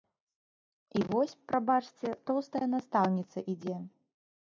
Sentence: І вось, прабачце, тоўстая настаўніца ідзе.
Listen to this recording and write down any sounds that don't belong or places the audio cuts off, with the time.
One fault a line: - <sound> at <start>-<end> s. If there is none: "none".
none